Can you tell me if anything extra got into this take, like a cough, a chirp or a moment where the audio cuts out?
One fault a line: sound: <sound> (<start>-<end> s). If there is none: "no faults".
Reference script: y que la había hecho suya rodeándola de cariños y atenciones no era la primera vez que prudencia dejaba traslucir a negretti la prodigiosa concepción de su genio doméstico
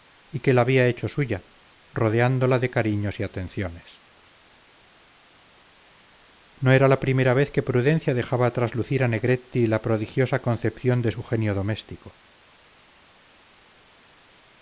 no faults